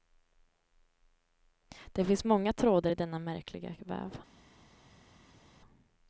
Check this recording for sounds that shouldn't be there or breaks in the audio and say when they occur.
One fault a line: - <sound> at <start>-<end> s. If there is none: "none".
none